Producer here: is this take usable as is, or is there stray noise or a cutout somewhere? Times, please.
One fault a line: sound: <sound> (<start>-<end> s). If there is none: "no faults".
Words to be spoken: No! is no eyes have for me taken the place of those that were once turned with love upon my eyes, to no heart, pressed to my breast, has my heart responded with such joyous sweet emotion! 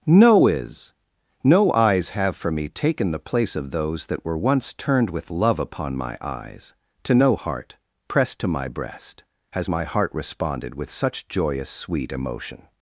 no faults